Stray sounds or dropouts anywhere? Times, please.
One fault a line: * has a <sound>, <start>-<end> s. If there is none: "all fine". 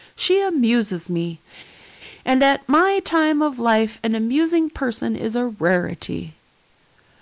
all fine